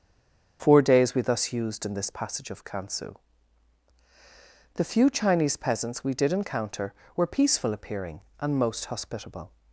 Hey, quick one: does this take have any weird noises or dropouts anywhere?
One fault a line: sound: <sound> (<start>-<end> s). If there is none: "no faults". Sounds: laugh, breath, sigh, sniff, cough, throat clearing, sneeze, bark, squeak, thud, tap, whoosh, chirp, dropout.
no faults